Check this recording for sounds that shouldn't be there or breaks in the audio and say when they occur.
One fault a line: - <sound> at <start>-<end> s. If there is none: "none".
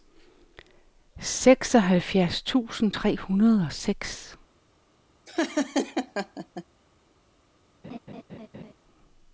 - laugh at 5.3-6.6 s
- laugh at 7.8-8.7 s